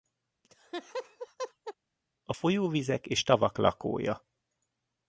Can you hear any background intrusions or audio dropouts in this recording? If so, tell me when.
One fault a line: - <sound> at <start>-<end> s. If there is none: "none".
- laugh at 0.4-1.7 s